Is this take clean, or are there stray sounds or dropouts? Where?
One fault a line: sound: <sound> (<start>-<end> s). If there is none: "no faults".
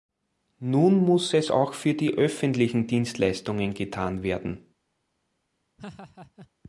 sound: laugh (5.8-6.5 s)